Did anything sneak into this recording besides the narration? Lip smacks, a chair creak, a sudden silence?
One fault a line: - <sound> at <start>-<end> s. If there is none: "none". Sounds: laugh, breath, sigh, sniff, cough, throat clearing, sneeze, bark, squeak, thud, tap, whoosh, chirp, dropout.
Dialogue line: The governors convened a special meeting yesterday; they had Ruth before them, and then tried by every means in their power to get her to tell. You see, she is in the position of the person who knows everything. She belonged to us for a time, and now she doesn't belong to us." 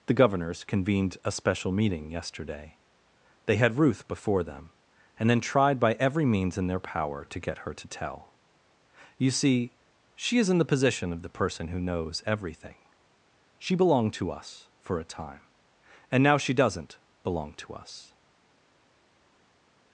none